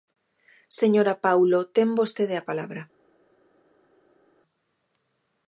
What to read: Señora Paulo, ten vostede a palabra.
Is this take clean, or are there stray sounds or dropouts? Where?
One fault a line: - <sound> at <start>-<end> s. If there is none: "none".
none